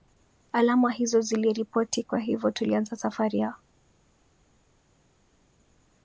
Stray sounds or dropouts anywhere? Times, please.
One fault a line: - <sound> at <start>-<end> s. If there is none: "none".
none